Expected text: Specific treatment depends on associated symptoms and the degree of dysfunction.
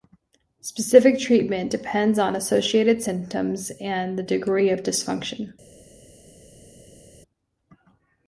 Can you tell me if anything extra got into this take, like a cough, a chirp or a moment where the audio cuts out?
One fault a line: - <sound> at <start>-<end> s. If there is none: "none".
none